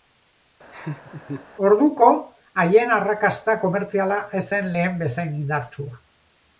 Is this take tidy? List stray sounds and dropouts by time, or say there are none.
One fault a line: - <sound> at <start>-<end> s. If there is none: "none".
- laugh at 0.7-1.5 s